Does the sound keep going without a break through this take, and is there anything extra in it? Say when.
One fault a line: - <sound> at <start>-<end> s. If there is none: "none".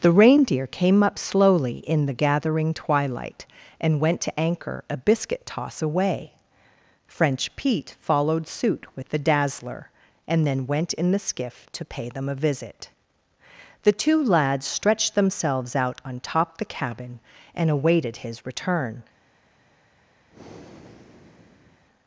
- breath at 20.3-21.8 s